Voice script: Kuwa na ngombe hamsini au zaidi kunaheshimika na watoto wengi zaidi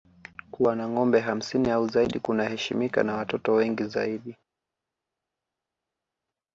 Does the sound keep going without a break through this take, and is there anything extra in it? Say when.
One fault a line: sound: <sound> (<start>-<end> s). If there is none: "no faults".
no faults